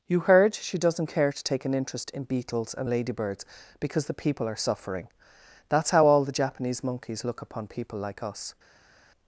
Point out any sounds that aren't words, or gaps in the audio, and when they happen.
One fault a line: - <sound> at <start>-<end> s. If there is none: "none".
none